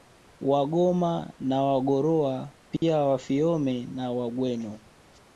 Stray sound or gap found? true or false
true